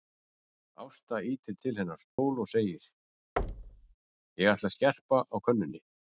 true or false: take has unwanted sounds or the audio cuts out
true